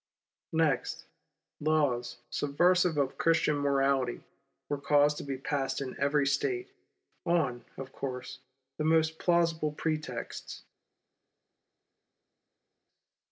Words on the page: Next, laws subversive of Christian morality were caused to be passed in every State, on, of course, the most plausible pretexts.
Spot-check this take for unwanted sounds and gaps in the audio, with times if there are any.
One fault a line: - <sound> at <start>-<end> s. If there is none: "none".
none